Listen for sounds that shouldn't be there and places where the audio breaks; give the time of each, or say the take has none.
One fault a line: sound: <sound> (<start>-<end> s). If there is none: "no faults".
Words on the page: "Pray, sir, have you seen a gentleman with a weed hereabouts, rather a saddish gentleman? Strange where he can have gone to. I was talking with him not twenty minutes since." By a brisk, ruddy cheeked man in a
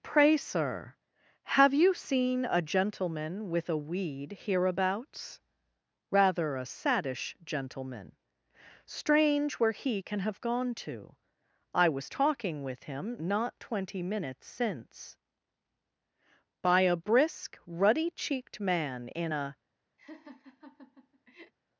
sound: laugh (20.0-21.5 s)